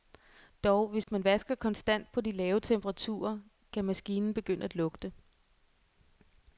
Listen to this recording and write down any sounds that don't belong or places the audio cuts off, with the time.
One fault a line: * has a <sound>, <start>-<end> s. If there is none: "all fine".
* has a dropout, 1.0-1.1 s